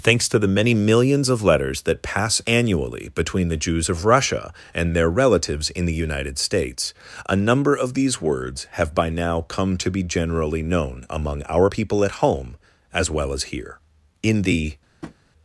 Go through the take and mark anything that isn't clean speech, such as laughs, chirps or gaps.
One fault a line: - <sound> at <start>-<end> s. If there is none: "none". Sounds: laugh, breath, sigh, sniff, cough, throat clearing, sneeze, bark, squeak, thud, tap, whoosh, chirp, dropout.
- tap at 15.0-15.2 s